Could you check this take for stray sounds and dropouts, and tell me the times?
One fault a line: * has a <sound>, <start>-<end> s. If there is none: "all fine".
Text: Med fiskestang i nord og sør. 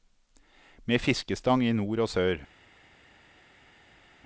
all fine